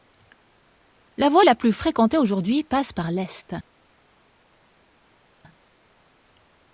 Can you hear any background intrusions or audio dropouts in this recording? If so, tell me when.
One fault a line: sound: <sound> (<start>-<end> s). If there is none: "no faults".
no faults